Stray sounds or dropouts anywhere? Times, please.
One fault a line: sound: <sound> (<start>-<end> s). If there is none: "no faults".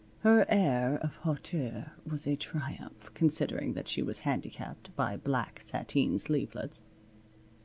no faults